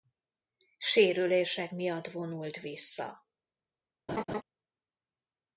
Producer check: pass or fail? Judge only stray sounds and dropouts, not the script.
fail